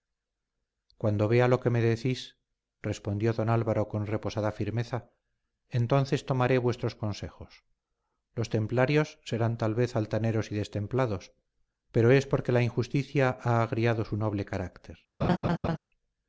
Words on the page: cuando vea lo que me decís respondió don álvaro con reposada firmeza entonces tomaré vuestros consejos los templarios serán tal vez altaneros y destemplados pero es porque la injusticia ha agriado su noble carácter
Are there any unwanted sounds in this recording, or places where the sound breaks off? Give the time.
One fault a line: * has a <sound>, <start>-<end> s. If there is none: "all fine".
* has a laugh, 15.2-15.8 s